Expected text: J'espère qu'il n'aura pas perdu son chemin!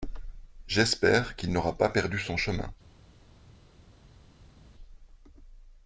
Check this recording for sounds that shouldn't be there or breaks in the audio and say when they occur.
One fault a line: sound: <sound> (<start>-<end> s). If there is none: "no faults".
no faults